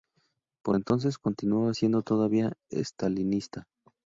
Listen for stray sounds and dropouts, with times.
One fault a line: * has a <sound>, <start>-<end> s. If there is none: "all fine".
all fine